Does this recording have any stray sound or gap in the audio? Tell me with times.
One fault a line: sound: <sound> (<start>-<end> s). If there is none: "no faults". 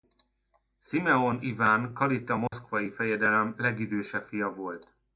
sound: dropout (2.5-2.5 s)